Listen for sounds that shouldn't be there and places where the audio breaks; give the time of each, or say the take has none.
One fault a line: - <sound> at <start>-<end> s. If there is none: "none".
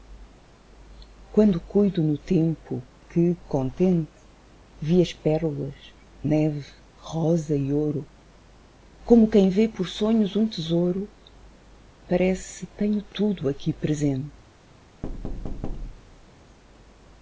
- thud at 15.0-16.3 s